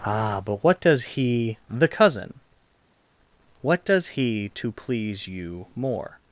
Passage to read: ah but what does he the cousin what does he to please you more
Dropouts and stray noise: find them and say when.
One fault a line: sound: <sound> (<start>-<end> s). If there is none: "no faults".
no faults